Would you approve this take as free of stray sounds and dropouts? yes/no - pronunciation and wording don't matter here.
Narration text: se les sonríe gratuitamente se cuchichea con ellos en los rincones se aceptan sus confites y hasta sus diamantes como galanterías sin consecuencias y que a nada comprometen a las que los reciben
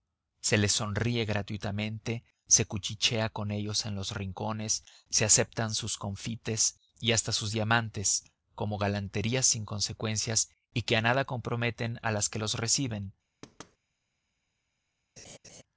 no